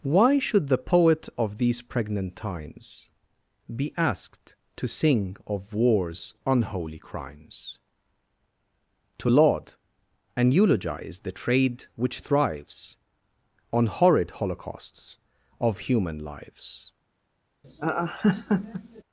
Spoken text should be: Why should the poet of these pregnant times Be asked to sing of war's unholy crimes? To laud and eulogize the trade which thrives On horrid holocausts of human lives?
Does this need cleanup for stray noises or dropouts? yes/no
yes